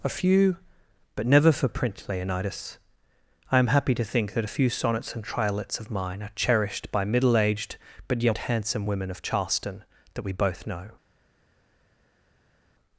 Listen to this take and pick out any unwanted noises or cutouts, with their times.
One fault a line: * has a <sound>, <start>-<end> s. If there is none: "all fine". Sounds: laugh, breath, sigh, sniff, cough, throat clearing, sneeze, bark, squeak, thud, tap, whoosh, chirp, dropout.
all fine